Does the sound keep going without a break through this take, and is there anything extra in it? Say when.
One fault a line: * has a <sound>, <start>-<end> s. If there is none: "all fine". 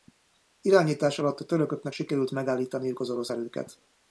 all fine